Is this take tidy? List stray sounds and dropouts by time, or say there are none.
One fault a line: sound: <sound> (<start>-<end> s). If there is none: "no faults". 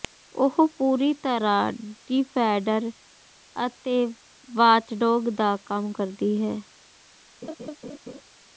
sound: laugh (7.4-8.2 s)